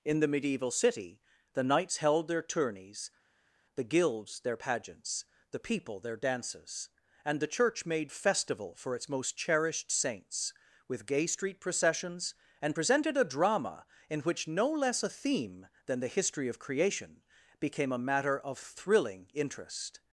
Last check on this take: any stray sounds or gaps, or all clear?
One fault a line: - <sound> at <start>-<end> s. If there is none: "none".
none